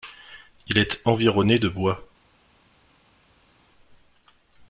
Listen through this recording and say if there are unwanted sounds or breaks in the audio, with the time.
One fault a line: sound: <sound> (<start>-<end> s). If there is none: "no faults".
no faults